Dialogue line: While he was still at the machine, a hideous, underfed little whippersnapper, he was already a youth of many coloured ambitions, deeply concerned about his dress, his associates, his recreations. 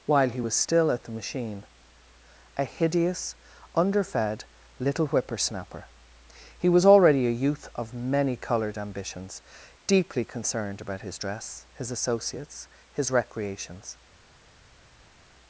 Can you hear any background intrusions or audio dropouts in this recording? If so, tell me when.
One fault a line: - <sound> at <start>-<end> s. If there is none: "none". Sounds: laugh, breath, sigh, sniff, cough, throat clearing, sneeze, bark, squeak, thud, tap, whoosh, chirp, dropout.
none